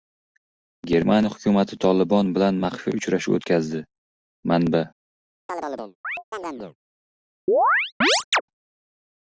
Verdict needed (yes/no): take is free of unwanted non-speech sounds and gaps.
no